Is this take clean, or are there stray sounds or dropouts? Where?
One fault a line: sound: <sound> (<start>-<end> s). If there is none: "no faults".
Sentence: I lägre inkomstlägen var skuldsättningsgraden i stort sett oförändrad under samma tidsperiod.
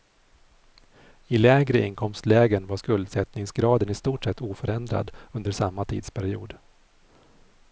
no faults